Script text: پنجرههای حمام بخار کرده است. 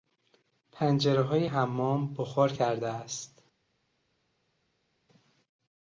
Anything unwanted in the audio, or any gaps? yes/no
no